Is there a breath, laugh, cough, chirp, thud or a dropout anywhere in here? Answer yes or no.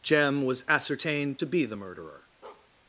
yes